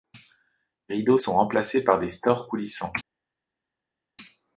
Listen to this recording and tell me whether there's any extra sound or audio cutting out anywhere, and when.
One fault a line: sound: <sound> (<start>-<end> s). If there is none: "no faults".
no faults